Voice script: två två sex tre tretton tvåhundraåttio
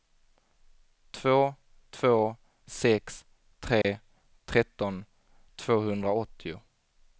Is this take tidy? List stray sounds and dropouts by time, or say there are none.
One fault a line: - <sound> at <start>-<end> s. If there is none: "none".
- dropout at 3.8-3.8 s